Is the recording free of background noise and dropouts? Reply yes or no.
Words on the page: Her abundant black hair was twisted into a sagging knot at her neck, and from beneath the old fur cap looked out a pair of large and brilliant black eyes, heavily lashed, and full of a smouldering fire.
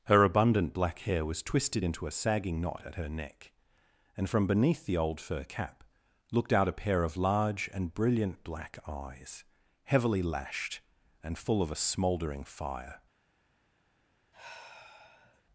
no